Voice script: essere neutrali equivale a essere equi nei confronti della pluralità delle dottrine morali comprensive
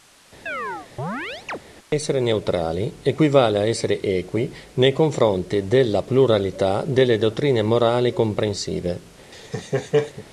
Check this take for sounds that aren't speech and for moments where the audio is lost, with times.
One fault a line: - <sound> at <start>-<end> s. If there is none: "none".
- chirp at 0.5-1.6 s
- laugh at 9.3-10.3 s